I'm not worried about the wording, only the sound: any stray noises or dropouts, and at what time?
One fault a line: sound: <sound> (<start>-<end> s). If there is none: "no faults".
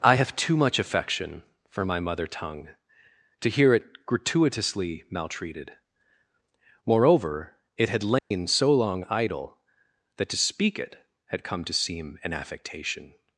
sound: dropout (8.2-8.3 s)